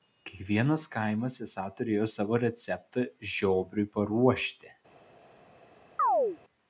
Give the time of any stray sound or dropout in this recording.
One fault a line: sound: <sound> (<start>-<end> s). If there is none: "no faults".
sound: chirp (6.0-6.4 s)